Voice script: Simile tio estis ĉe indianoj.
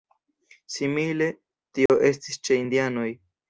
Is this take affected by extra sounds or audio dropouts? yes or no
yes